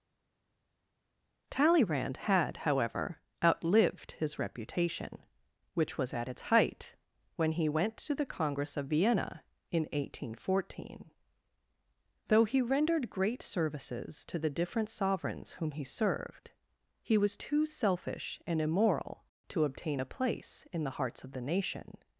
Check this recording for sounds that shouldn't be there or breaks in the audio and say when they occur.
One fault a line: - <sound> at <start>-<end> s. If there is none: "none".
none